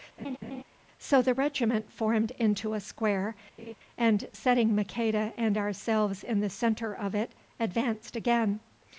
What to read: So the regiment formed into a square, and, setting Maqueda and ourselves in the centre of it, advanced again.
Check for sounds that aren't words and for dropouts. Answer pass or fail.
fail